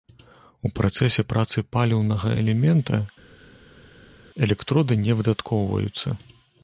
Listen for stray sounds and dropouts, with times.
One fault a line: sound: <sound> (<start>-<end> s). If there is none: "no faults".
no faults